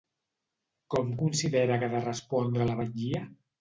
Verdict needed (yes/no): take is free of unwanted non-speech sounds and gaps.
yes